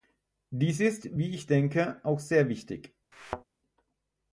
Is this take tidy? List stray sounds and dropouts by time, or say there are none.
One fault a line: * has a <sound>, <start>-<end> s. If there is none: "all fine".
* has a thud, 3.1-3.4 s